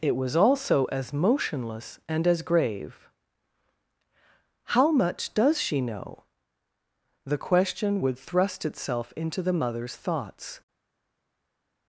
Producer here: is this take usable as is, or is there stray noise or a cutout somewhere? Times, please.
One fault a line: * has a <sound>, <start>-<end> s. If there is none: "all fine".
all fine